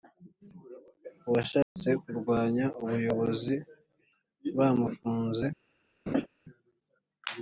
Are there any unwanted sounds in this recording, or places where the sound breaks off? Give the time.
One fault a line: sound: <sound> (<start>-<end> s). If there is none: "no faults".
sound: dropout (1.6-1.8 s)
sound: laugh (6.1-6.3 s)